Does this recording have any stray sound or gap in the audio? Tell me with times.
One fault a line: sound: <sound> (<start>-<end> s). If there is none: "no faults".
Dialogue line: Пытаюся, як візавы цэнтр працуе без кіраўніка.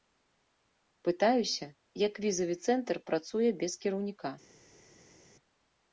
no faults